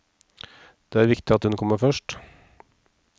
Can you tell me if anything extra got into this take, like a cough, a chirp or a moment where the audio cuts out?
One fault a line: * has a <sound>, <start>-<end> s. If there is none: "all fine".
all fine